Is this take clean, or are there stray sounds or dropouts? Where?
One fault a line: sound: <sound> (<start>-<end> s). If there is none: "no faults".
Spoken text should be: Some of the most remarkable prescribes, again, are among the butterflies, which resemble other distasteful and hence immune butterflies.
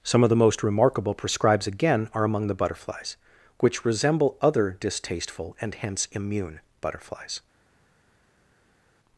no faults